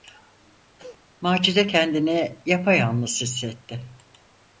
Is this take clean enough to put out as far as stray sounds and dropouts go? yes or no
no